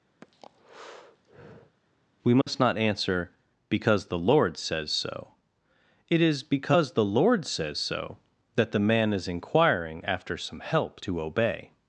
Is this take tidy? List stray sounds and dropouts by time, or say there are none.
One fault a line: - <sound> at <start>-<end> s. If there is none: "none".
- breath at 0.2-1.8 s
- dropout at 2.4-2.5 s